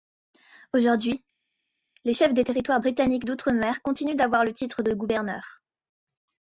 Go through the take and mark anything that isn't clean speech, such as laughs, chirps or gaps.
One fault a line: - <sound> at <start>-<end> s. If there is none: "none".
none